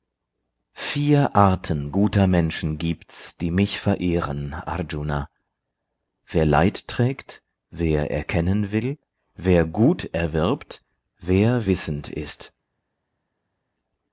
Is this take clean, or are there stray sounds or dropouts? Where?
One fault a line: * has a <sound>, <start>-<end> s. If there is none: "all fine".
all fine